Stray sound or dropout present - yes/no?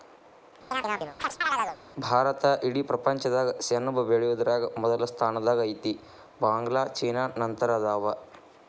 yes